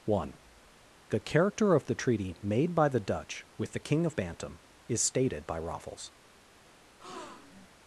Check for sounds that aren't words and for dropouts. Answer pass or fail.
fail